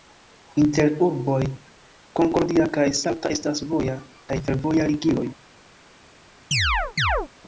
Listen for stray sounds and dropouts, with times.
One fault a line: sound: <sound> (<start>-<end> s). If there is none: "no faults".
sound: chirp (6.5-7.3 s)